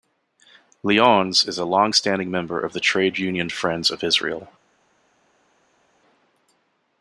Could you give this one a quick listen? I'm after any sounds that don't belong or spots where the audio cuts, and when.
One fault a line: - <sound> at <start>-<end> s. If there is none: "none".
none